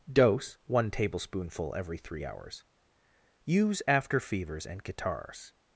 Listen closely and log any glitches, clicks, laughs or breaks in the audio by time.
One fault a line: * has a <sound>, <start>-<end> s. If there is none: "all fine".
all fine